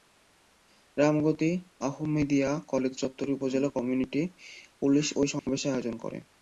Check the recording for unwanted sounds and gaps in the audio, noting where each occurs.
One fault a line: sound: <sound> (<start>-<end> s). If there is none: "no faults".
sound: dropout (5.4-5.5 s)